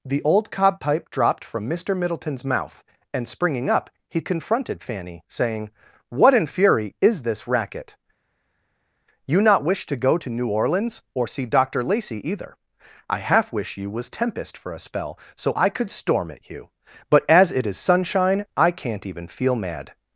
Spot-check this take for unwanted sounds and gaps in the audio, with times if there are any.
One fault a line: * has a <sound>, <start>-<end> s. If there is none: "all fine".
all fine